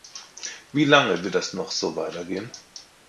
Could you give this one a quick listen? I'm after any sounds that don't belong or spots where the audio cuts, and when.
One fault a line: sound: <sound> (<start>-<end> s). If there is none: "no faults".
no faults